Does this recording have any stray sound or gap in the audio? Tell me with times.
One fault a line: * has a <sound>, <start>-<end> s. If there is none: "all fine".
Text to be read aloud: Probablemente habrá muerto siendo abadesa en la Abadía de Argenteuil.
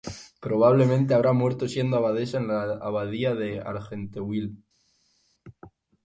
all fine